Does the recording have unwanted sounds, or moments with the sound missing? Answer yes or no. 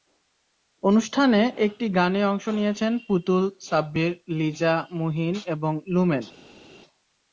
no